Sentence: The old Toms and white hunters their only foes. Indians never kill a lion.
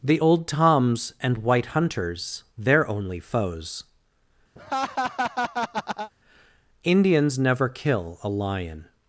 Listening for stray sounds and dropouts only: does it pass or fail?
fail